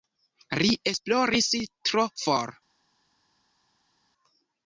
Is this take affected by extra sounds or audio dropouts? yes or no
no